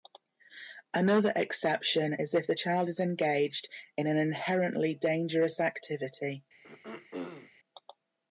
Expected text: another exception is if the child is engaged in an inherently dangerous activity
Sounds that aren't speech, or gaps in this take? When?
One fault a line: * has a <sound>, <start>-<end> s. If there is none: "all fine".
* has a throat clearing, 6.6-7.5 s